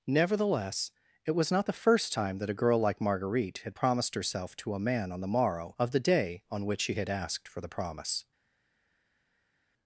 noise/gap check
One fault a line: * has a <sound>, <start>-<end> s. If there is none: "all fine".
all fine